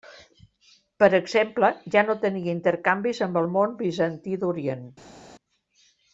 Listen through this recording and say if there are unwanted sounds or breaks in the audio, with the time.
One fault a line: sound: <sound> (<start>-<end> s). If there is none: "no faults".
no faults